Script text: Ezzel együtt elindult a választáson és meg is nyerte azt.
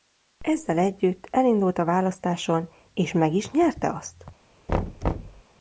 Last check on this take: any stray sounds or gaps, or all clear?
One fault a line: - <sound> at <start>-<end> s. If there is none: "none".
- thud at 4.7-5.4 s